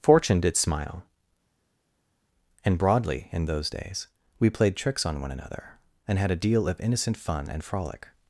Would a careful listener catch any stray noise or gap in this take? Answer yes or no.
no